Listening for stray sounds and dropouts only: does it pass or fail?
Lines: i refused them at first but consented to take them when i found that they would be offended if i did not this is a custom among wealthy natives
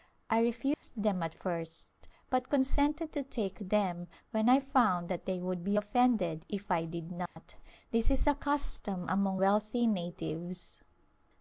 fail